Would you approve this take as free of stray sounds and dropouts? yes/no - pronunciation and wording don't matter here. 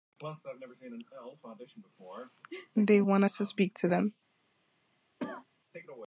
no